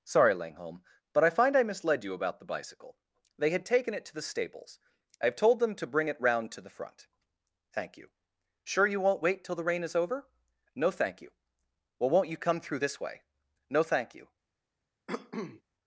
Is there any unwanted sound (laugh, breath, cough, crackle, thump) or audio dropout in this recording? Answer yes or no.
yes